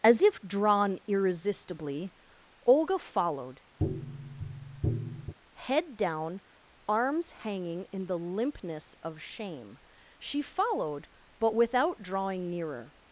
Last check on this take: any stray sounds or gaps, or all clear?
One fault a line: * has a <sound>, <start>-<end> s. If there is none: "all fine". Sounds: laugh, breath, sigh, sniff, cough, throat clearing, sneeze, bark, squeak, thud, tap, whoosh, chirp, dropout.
* has a tap, 3.8-5.3 s